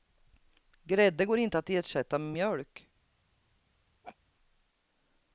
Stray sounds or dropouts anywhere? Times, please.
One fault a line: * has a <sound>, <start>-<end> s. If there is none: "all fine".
* has a laugh, 4.0-4.2 s